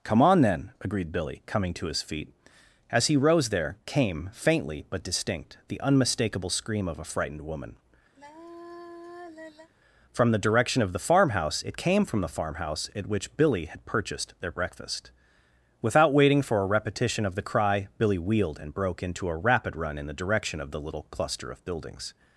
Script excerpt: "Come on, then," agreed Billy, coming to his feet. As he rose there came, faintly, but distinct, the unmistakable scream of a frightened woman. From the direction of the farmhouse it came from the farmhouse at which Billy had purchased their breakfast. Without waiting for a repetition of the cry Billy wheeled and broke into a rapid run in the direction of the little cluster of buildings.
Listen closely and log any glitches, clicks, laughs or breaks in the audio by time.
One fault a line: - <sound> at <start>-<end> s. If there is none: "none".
- sigh at 8.2-9.7 s